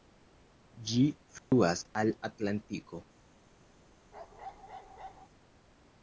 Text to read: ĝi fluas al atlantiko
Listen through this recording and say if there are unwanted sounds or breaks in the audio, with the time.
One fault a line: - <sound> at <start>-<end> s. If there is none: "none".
- dropout at 1.4-1.5 s
- bark at 4.1-5.3 s